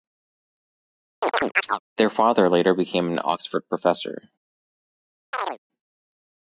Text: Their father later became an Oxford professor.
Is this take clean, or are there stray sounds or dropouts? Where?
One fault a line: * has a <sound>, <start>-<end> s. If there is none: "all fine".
* has a chirp, 1.2-1.8 s
* has a chirp, 5.3-5.6 s